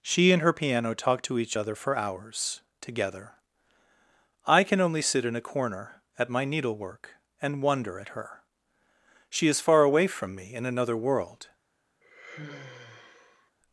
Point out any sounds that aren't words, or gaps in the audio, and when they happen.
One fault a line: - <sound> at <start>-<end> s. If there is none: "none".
- sigh at 12.0-13.5 s